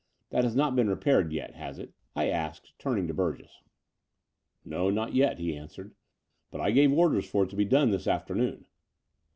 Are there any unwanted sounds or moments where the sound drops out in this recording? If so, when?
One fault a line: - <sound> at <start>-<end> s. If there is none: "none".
none